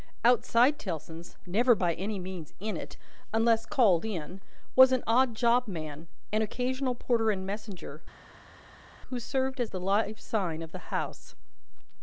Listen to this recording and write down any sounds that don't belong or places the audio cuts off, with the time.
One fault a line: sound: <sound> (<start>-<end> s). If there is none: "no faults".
no faults